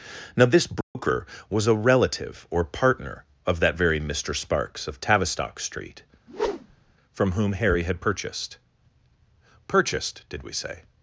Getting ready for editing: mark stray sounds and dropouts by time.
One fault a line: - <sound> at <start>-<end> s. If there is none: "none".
- dropout at 0.8-1.0 s
- whoosh at 6.3-6.9 s